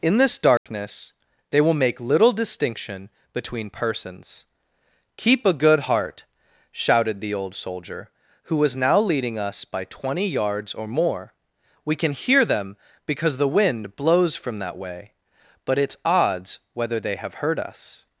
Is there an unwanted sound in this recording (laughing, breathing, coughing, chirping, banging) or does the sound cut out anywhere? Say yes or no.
yes